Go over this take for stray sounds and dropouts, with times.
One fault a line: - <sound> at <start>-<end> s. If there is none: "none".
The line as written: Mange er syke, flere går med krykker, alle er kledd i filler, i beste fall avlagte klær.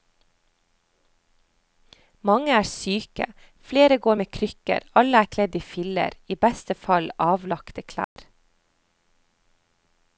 - dropout at 8.0-8.2 s